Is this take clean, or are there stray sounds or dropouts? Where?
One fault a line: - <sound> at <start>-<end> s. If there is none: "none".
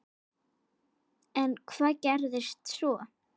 none